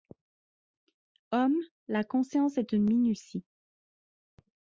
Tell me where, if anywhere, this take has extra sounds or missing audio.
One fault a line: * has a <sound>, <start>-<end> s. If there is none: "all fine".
all fine